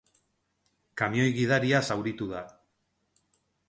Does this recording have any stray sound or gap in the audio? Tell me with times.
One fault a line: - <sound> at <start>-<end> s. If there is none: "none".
none